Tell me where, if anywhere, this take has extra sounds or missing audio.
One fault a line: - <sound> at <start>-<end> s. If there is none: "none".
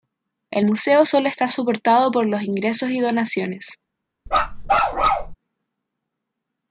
- bark at 4.3-5.4 s